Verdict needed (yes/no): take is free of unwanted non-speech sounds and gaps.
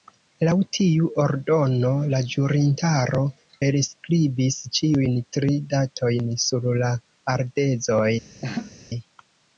no